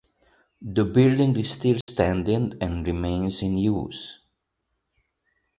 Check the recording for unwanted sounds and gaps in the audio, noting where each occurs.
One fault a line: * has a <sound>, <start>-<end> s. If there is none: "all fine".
* has a dropout, 1.8-1.9 s